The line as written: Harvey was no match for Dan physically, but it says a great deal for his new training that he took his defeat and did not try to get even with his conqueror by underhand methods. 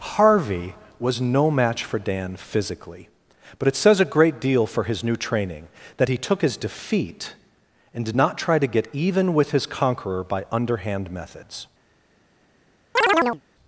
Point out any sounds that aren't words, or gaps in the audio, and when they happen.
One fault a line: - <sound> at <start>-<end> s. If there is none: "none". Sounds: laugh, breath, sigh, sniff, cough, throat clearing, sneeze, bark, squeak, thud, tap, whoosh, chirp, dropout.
- chirp at 13.0-13.4 s